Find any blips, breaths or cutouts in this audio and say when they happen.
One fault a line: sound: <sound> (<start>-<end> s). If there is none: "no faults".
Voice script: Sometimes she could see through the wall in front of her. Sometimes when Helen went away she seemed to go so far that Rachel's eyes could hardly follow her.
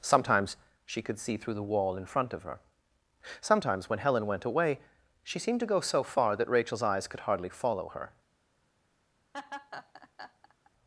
sound: laugh (9.3-10.7 s)